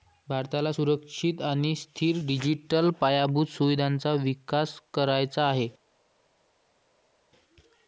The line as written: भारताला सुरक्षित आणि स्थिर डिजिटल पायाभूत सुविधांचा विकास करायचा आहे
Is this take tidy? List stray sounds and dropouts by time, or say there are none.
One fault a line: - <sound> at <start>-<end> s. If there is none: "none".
none